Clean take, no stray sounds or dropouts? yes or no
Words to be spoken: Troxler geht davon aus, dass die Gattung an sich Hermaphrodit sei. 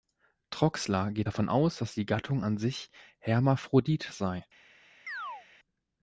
no